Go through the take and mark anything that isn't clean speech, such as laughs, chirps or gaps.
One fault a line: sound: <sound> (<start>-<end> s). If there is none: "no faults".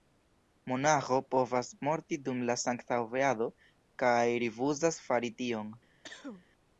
sound: cough (6.0-6.5 s)